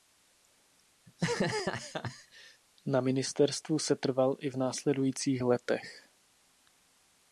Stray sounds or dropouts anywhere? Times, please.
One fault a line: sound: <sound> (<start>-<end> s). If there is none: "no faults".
sound: laugh (1.1-2.6 s)